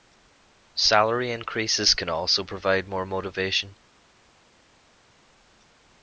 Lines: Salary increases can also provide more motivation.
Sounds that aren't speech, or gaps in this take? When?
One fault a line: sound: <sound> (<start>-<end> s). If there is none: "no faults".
no faults